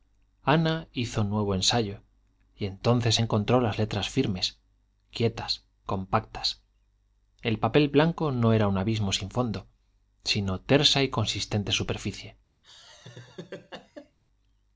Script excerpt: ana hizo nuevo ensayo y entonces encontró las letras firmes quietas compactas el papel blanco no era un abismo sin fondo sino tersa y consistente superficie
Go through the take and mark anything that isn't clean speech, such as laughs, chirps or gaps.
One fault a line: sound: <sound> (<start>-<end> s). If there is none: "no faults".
sound: laugh (12.6-14.2 s)